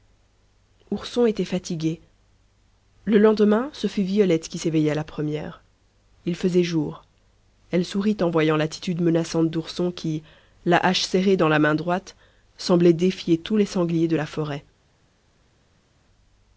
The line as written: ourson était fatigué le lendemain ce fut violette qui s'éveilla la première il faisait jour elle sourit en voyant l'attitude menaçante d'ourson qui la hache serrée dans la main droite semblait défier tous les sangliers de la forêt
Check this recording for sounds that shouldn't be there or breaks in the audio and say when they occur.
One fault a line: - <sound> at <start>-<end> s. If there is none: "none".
none